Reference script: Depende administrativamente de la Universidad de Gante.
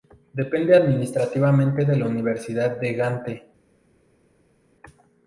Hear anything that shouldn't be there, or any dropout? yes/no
no